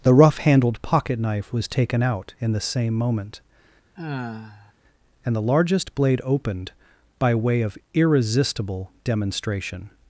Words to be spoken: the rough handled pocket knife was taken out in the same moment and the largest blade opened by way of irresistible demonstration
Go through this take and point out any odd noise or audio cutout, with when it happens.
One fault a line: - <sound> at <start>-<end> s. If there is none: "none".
- sigh at 4.0-4.7 s